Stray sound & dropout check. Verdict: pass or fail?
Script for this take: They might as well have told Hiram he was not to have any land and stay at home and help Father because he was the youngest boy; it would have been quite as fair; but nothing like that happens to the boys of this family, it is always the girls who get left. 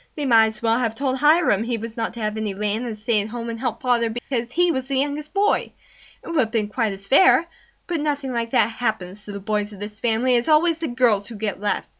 fail